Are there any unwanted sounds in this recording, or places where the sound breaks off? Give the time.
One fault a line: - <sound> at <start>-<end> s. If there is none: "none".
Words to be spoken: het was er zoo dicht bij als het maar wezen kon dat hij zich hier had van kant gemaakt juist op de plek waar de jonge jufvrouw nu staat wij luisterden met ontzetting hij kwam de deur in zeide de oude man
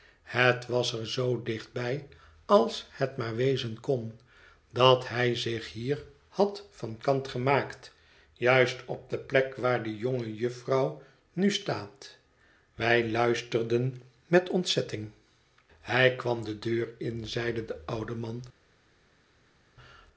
none